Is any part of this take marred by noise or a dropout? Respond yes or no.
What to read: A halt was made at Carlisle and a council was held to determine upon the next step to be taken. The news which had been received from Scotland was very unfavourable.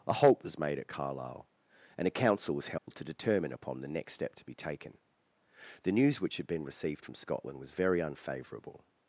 yes